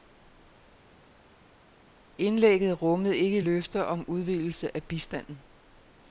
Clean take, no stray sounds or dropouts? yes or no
yes